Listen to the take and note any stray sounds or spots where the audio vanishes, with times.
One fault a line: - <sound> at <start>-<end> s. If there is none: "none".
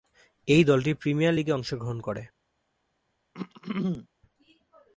- throat clearing at 3.3-4.1 s